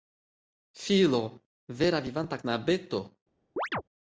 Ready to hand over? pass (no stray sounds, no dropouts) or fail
fail